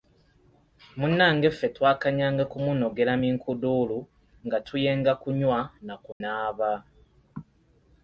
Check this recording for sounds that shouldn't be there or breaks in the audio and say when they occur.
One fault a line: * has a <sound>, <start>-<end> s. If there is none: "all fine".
* has a dropout, 6.1-6.2 s